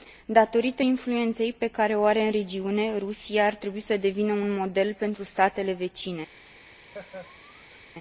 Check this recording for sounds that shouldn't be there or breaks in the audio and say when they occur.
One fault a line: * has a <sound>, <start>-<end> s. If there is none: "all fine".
* has a laugh, 6.9-7.9 s